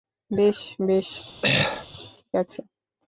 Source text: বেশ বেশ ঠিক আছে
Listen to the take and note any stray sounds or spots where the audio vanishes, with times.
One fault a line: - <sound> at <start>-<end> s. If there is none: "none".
- throat clearing at 1.4-1.9 s